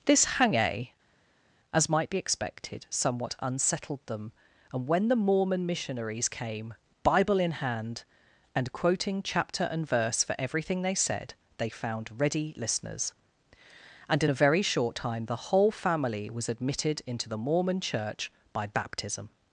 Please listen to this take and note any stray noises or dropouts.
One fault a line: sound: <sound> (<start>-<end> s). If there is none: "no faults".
no faults